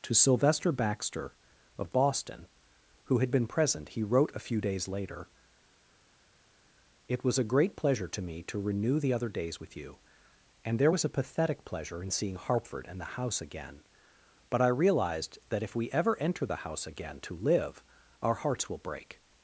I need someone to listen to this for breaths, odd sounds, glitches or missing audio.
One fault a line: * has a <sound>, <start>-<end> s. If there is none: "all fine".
all fine